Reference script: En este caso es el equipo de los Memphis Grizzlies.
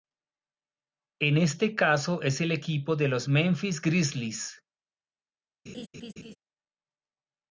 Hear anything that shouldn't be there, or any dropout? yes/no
yes